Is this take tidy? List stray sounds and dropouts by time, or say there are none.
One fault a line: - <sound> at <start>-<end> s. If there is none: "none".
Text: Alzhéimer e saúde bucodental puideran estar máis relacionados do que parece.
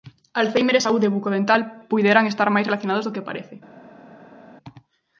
none